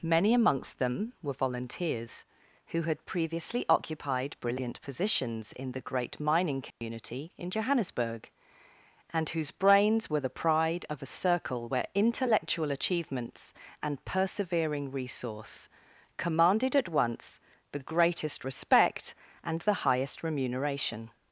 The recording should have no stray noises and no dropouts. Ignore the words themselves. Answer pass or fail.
fail